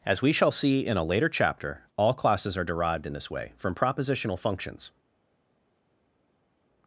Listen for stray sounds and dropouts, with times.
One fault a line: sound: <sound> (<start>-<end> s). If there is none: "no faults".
no faults